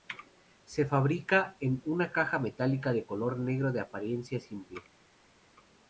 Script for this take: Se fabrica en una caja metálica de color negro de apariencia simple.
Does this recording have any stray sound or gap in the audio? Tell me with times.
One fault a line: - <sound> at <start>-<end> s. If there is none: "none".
none